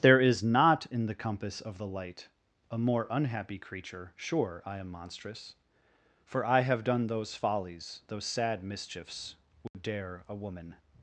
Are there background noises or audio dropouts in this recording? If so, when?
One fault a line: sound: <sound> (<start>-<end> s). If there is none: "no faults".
sound: dropout (9.7-9.7 s)